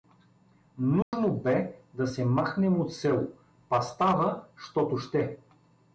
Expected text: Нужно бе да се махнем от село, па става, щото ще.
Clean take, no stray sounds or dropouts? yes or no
no